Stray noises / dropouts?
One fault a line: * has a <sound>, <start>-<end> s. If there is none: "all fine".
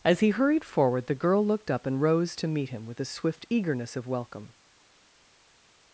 all fine